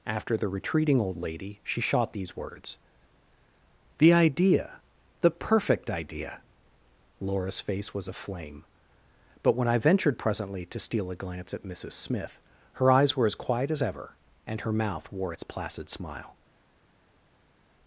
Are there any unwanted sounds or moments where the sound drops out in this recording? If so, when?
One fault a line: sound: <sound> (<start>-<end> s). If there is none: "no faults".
no faults